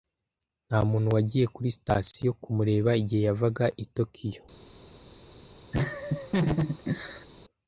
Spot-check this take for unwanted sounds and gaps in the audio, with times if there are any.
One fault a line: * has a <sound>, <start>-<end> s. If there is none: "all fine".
* has a laugh, 5.7-7.3 s